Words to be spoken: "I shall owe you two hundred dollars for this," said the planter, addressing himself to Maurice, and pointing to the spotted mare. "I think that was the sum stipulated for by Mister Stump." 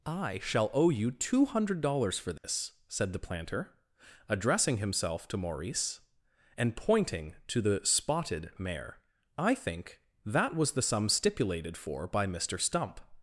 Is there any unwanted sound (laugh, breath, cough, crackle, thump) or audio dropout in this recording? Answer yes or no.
yes